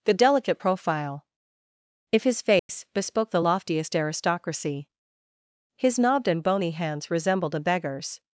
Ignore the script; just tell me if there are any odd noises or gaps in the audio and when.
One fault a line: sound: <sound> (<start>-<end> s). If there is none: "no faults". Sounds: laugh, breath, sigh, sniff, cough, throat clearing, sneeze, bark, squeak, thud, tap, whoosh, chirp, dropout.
sound: dropout (2.6-2.7 s)